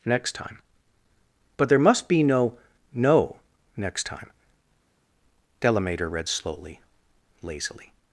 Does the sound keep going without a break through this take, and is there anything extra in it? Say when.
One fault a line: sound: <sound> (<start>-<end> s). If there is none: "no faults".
no faults